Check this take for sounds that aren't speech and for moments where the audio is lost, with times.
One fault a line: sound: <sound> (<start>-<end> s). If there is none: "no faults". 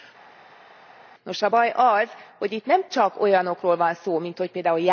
no faults